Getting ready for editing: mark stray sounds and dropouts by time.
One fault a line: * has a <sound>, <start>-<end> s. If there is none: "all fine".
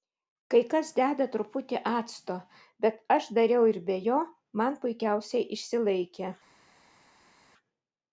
all fine